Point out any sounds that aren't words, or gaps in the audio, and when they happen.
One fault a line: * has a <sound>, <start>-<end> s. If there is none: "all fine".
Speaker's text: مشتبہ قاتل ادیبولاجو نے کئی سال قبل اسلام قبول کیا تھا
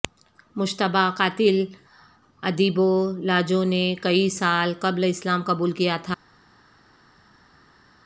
all fine